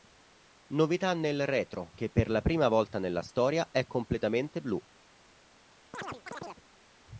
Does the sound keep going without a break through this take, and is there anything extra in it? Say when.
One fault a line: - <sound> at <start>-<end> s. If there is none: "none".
- chirp at 5.9-6.6 s